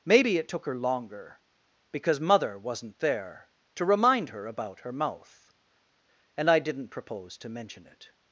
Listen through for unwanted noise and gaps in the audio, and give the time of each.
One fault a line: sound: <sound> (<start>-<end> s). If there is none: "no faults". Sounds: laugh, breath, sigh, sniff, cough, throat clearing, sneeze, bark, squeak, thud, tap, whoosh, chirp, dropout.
no faults